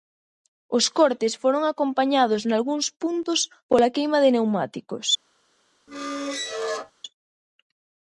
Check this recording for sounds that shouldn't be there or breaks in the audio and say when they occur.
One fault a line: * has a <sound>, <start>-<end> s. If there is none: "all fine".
* has a squeak, 5.9-6.9 s